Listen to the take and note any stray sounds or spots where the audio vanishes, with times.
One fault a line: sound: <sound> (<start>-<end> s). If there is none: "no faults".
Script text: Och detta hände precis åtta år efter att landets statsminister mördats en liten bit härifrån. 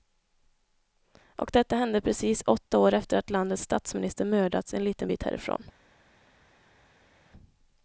no faults